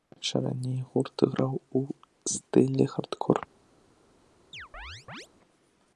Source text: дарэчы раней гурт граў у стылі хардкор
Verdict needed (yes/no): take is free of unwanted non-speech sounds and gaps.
no